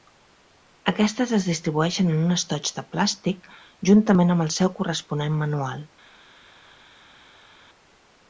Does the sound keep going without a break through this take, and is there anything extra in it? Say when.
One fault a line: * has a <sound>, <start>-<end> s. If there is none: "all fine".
all fine